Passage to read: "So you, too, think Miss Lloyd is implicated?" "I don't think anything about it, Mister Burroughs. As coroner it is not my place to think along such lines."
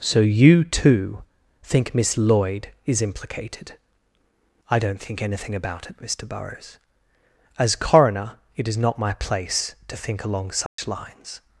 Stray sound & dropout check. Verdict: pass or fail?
fail